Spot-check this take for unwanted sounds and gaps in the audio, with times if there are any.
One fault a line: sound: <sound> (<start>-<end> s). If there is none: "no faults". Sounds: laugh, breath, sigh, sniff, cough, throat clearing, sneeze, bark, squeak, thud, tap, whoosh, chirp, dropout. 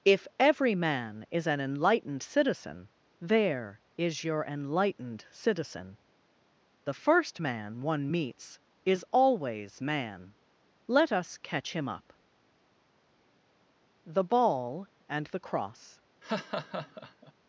sound: laugh (16.2-17.3 s)